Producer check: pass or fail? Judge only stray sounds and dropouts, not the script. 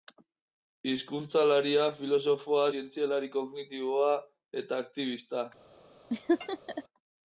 fail